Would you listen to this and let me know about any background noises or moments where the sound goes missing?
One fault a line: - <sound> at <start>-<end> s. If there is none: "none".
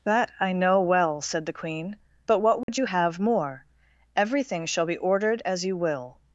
- dropout at 2.6-2.7 s